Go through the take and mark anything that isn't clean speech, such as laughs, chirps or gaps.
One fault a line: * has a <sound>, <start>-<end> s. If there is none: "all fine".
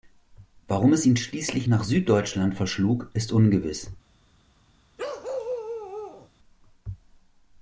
* has a bark, 5.0-6.3 s